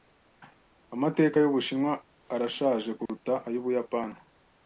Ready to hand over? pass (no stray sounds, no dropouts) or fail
fail